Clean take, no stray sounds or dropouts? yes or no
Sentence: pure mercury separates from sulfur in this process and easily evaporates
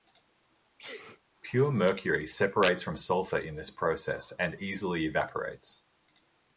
no